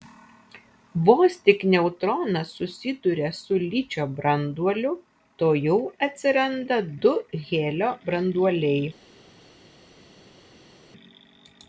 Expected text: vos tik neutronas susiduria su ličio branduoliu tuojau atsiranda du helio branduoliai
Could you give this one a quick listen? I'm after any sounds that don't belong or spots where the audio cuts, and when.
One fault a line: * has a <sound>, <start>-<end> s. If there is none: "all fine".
all fine